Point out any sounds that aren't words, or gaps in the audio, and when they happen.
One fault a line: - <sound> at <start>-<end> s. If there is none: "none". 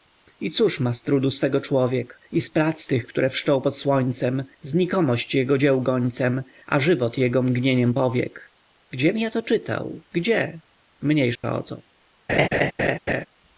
- dropout at 11.4-11.4 s
- laugh at 12.3-13.3 s